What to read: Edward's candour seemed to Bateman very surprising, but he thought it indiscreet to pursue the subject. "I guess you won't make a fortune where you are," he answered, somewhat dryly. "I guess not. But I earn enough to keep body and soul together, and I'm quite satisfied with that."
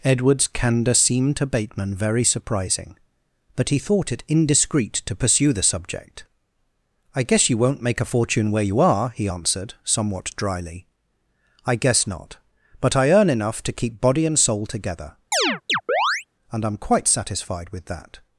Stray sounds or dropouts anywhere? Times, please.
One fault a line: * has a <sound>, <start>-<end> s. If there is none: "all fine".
* has a chirp, 15.3-16.2 s